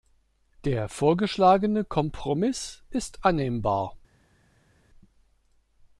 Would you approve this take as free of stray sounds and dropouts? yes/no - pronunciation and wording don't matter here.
yes